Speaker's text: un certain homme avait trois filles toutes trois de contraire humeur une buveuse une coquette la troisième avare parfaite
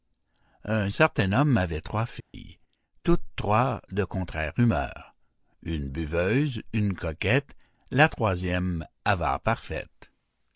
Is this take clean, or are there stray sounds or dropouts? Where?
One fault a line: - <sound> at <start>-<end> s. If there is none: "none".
- dropout at 2.2-2.3 s